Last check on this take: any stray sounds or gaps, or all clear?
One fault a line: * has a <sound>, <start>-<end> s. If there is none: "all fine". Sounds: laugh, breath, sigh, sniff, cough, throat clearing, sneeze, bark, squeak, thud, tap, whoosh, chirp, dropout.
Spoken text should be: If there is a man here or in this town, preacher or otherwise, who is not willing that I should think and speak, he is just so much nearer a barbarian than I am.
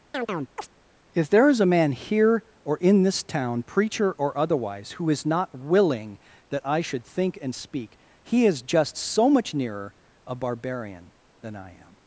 * has a chirp, 0.1-0.7 s